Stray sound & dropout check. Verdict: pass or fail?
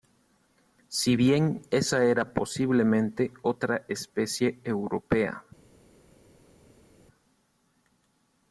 pass